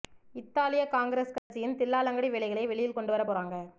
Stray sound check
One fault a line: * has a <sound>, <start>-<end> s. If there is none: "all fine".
* has a dropout, 1.4-1.5 s